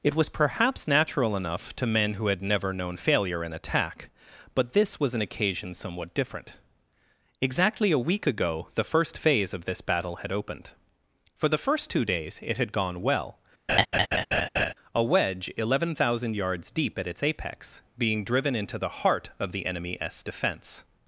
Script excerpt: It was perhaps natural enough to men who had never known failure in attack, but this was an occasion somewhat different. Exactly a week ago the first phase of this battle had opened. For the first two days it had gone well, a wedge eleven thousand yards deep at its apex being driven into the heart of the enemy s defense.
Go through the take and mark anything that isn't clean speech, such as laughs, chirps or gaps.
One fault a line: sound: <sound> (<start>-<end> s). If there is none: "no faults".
sound: laugh (13.7-14.7 s)